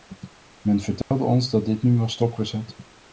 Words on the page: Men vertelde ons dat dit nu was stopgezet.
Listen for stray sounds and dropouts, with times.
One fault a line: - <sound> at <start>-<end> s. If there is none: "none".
- dropout at 1.0-1.1 s